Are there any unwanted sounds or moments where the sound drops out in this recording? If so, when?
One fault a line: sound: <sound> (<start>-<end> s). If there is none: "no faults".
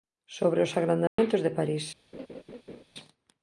sound: dropout (1.1-1.2 s)
sound: laugh (2.1-2.8 s)